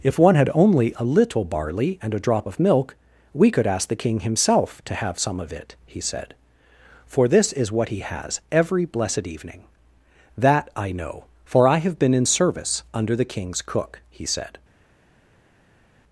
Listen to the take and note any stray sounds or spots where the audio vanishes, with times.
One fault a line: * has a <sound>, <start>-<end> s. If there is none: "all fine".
all fine